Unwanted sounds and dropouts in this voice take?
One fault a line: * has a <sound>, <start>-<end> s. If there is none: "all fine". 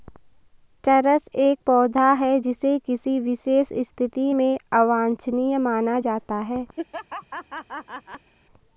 * has a laugh, 6.8-8.3 s